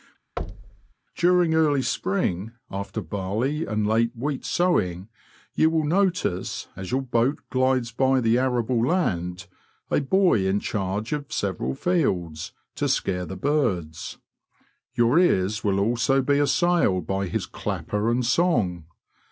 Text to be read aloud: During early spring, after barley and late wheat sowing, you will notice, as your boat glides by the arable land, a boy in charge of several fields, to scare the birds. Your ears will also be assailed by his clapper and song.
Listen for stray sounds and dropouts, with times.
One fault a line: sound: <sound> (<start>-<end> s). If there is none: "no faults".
sound: thud (0.4-0.9 s)